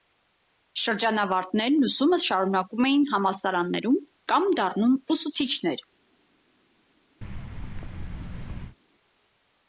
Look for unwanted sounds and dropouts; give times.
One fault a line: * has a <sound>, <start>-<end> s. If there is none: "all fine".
* has a thud, 7.2-8.8 s